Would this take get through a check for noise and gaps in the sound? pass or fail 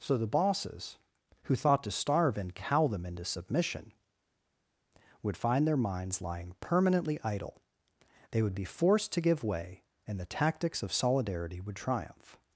pass